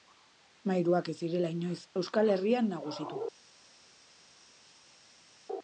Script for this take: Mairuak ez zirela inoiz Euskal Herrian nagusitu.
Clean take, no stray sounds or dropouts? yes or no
yes